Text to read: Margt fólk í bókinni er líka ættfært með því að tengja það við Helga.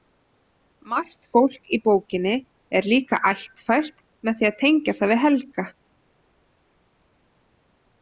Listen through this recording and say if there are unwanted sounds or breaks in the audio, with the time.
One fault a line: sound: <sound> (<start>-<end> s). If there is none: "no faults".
no faults